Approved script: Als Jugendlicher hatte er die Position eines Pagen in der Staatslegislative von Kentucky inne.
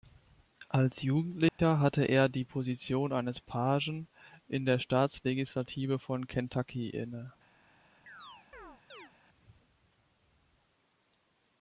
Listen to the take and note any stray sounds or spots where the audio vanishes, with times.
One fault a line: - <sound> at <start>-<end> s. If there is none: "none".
- dropout at 1.5-1.6 s
- chirp at 8.1-9.1 s